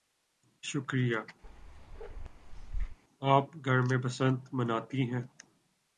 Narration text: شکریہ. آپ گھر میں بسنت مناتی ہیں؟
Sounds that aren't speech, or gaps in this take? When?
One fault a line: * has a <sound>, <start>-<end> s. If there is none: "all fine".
* has a bark, 1.4-3.0 s